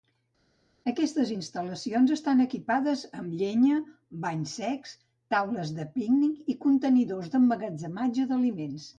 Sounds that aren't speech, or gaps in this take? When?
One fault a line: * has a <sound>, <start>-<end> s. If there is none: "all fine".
all fine